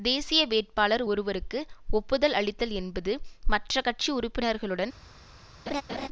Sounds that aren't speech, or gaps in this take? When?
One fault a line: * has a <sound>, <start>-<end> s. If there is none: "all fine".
* has a laugh, 5.7-6.1 s